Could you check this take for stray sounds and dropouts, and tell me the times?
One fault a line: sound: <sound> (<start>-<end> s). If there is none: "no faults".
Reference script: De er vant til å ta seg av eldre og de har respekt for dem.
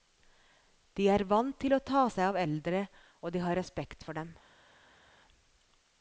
no faults